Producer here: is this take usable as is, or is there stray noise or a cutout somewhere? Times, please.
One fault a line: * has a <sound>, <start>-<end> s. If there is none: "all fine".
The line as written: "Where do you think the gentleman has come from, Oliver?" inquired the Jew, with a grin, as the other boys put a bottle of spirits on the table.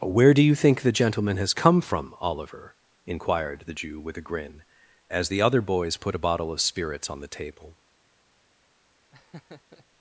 * has a laugh, 9.1-9.9 s